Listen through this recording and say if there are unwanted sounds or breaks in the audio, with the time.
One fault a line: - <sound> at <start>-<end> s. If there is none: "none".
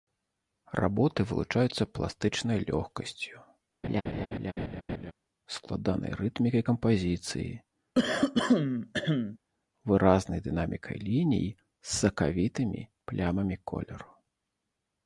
- laugh at 3.8-5.1 s
- throat clearing at 7.9-9.4 s